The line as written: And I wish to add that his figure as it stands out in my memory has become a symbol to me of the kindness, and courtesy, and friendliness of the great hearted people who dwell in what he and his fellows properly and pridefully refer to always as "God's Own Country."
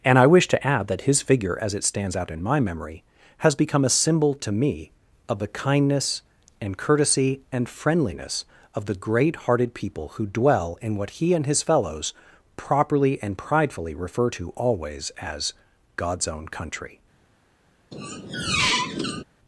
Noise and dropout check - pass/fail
fail